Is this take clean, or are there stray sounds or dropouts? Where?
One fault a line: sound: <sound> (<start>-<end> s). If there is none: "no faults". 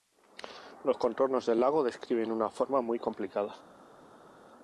no faults